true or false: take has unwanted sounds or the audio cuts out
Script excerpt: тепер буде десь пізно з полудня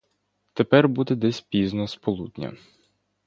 false